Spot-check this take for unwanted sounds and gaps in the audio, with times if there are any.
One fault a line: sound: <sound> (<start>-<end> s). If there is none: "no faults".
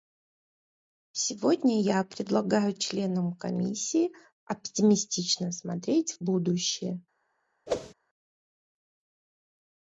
sound: whoosh (7.7-7.9 s)